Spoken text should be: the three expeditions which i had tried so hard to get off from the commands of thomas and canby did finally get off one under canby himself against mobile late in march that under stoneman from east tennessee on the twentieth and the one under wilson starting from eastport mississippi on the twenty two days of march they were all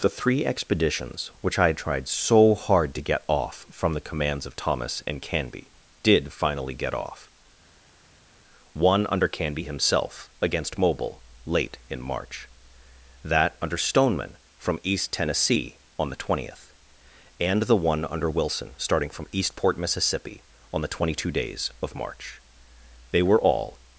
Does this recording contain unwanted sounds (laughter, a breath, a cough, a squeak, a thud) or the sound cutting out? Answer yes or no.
no